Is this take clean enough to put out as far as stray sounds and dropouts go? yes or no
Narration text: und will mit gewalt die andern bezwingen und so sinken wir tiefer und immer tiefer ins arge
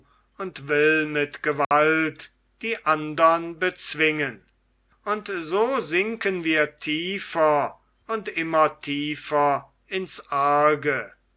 no